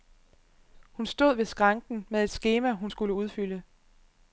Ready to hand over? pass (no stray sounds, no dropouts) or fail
pass